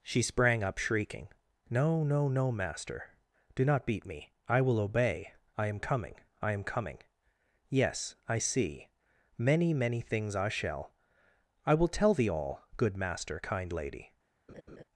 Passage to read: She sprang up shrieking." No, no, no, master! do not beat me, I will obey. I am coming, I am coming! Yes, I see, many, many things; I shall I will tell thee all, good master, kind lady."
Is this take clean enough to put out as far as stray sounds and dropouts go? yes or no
no